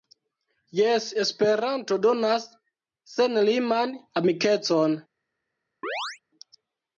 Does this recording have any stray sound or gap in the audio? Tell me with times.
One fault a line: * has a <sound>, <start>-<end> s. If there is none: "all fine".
* has a chirp, 5.8-6.2 s